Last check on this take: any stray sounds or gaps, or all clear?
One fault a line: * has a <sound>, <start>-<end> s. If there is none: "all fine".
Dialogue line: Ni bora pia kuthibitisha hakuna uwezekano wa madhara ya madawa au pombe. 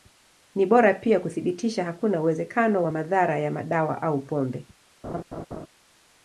* has a laugh, 5.0-5.7 s